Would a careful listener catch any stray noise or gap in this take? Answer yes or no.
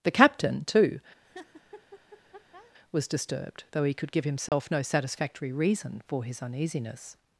yes